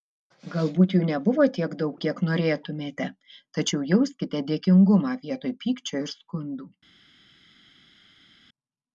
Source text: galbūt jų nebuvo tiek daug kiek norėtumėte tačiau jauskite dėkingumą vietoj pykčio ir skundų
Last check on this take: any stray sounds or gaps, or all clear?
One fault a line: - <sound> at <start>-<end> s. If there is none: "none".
none